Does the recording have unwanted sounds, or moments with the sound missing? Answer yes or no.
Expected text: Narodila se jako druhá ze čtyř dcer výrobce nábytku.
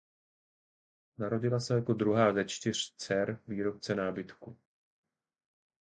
no